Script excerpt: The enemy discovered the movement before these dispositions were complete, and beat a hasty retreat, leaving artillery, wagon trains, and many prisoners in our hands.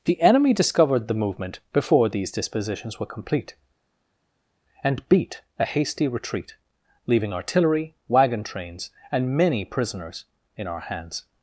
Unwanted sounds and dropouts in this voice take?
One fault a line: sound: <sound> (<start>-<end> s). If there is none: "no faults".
no faults